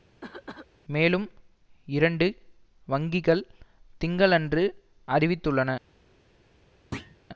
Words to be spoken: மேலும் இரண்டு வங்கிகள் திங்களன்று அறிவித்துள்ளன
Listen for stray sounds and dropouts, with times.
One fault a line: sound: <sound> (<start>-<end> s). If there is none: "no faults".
sound: cough (0.2-0.7 s)
sound: thud (6.9-7.2 s)